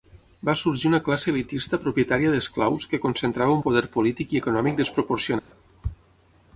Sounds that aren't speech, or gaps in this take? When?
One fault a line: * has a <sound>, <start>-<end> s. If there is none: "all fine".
* has a dropout, 5.4-5.5 s